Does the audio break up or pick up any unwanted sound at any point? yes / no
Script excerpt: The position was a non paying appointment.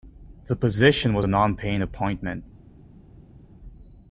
no